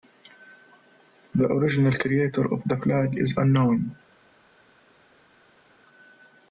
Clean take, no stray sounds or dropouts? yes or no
yes